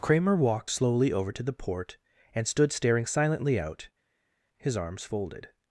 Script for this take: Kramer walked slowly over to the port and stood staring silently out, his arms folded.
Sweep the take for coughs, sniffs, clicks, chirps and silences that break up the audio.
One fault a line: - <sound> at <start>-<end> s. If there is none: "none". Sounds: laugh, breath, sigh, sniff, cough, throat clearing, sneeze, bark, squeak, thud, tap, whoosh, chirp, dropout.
none